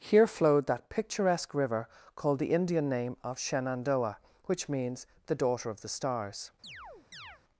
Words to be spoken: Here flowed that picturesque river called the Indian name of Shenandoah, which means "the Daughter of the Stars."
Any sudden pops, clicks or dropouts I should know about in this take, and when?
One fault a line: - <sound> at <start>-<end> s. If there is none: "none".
- chirp at 6.6-7.4 s